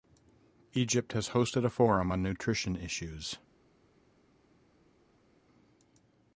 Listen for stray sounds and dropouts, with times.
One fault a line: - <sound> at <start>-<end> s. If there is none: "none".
none